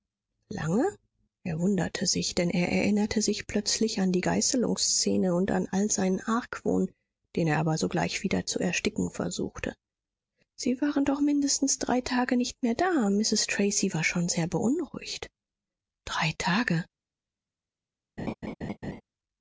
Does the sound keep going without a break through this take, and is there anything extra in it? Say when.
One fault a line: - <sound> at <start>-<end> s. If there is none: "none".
- laugh at 18.2-19.0 s